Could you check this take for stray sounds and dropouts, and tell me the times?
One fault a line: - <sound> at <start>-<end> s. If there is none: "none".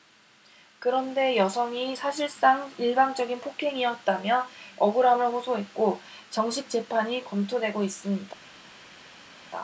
none